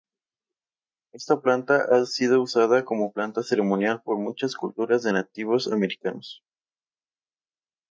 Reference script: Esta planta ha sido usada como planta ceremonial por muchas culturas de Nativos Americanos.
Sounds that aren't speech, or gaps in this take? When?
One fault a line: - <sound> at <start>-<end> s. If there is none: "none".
none